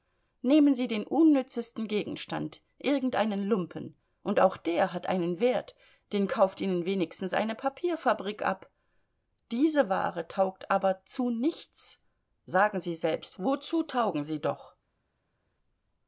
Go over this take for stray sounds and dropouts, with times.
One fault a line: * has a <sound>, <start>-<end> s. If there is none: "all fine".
all fine